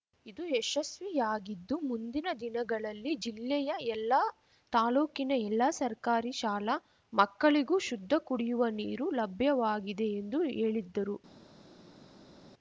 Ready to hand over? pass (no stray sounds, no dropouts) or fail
pass